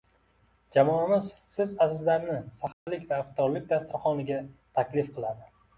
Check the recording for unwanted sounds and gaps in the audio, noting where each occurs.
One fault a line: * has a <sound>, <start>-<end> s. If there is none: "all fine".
* has a dropout, 2.7-2.9 s